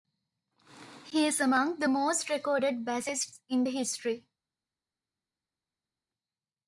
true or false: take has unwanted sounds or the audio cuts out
false